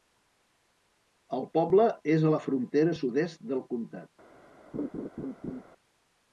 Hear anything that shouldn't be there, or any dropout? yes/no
yes